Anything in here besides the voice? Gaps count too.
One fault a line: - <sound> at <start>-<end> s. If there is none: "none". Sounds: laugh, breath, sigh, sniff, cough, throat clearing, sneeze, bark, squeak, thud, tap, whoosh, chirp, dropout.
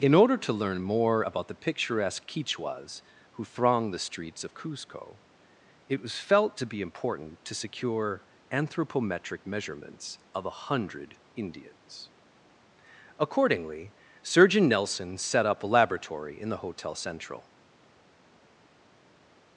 none